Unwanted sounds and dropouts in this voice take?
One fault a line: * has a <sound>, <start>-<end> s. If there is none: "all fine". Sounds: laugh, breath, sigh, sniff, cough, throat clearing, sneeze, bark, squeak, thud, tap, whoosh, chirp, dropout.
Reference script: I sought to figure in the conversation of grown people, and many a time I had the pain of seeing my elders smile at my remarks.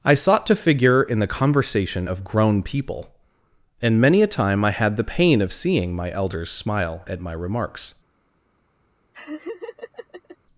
* has a laugh, 9.1-10.4 s